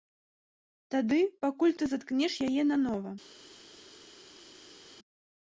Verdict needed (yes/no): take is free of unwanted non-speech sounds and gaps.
yes